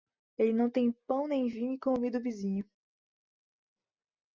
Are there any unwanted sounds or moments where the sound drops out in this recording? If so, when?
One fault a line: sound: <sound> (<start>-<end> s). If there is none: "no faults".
no faults